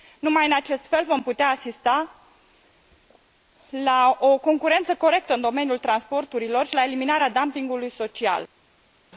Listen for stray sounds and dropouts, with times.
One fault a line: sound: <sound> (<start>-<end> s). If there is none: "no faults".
no faults